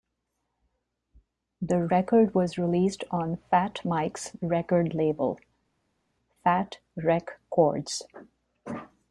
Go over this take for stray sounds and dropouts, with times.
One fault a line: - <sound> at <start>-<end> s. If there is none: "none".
none